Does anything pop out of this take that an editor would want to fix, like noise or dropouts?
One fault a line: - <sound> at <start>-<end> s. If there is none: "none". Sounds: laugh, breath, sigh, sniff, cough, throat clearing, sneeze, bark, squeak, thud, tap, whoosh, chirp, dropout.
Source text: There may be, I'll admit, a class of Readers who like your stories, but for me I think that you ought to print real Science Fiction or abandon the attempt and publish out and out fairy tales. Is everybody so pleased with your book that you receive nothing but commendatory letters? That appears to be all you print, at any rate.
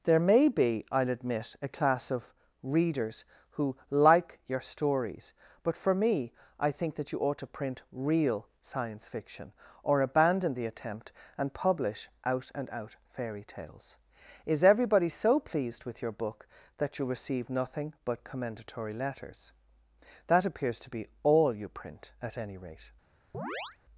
- chirp at 23.3-23.8 s